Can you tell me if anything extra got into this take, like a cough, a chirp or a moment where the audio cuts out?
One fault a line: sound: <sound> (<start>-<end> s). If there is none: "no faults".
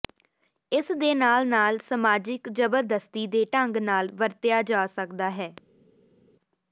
no faults